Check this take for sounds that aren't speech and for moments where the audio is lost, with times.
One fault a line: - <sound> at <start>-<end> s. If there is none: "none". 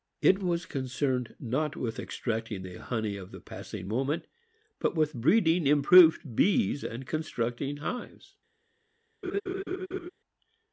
- laugh at 9.2-10.1 s